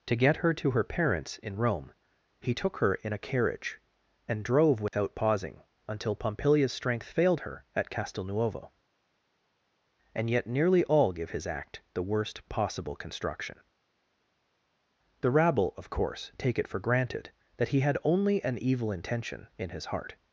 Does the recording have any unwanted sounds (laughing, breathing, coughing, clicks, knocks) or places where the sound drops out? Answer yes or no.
yes